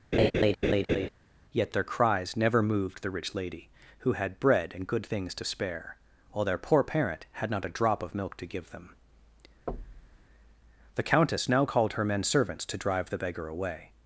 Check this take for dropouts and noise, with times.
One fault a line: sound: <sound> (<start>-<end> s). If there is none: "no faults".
sound: laugh (0.1-1.1 s)
sound: thud (9.7-10.3 s)